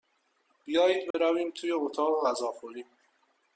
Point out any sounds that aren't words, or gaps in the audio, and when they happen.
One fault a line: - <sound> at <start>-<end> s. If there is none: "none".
- dropout at 1.1-1.1 s